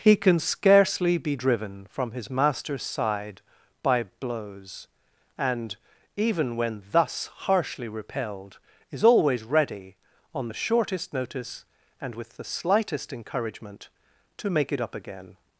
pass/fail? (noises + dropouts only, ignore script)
pass